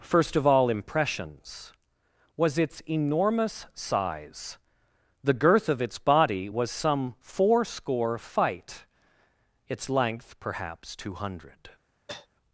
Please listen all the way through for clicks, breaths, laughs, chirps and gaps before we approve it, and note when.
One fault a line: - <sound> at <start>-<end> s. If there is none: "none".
- cough at 12.1-12.3 s